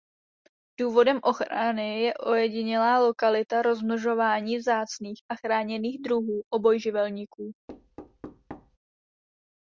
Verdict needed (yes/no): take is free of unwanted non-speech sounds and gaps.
no